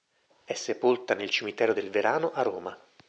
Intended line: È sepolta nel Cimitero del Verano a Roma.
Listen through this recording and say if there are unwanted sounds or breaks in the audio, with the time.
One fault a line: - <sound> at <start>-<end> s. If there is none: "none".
none